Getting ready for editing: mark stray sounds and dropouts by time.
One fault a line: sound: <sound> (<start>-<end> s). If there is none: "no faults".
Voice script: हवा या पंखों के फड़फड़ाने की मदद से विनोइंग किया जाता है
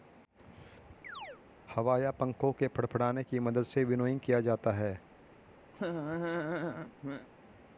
sound: chirp (1.0-1.4 s)
sound: laugh (5.7-7.3 s)